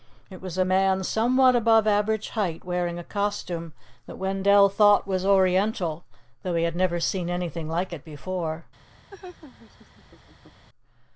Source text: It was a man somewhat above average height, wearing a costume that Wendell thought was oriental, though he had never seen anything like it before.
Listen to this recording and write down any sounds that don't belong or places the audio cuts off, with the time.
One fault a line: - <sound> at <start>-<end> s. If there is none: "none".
- laugh at 9.1-10.6 s